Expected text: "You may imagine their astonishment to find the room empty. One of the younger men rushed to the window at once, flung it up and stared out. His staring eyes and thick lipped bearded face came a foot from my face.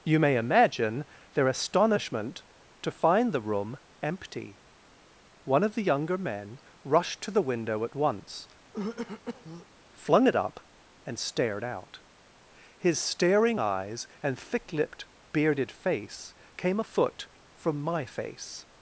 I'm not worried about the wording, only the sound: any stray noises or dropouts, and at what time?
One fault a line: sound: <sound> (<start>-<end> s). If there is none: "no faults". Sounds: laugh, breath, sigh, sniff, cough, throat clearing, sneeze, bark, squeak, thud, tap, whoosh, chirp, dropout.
sound: throat clearing (8.7-9.7 s)